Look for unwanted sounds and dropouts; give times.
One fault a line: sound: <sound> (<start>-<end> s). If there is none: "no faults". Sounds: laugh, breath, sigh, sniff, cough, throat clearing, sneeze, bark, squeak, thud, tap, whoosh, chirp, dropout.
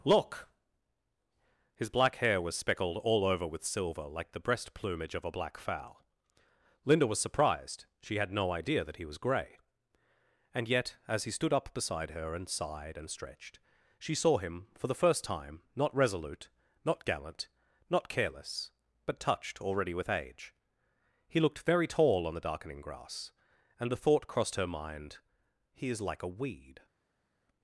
no faults